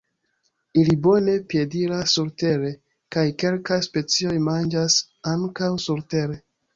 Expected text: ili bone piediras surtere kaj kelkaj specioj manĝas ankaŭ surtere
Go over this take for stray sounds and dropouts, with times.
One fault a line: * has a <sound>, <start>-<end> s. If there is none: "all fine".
all fine